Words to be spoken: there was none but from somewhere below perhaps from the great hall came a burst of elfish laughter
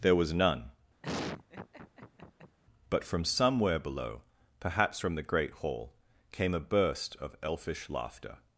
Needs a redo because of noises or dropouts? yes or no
yes